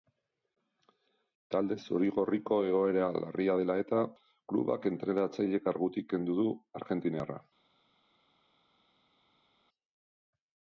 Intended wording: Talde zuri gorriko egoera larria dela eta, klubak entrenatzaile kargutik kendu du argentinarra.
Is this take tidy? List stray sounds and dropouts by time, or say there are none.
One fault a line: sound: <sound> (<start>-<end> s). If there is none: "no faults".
no faults